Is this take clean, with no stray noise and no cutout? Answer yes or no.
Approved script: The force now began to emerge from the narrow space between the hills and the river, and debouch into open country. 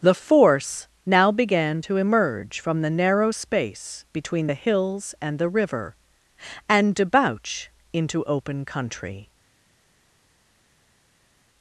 yes